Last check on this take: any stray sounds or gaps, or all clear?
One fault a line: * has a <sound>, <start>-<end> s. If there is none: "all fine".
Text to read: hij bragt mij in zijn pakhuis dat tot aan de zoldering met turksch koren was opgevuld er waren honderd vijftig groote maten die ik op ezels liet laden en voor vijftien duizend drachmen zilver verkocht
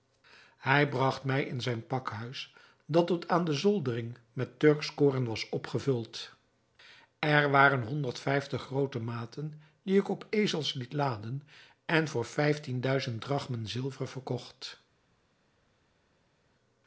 all fine